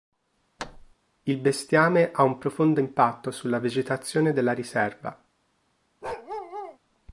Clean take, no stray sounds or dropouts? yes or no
no